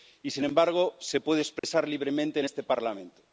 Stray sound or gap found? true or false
true